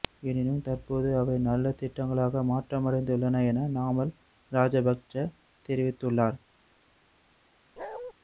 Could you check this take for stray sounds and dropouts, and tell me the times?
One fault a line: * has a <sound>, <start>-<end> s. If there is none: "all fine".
* has a bark, 7.8-8.1 s